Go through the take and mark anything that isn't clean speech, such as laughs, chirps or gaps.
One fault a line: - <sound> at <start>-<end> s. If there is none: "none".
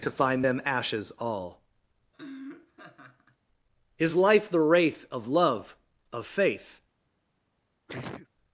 - laugh at 2.1-3.4 s
- sneeze at 7.9-8.3 s